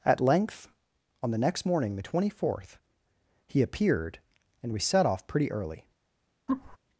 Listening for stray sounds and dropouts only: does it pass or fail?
fail